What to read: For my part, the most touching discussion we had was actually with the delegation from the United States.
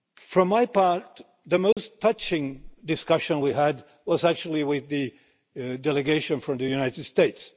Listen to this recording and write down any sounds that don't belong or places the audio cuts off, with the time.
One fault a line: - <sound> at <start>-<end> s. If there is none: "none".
- dropout at 1.7-1.8 s